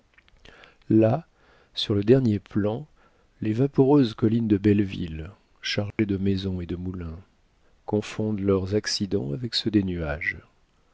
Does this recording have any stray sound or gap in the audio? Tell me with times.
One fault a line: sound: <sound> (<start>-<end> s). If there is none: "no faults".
sound: dropout (5.9-6.0 s)